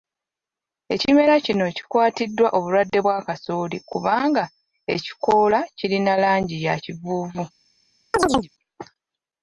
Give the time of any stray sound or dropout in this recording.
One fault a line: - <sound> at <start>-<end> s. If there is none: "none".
- chirp at 8.1-8.5 s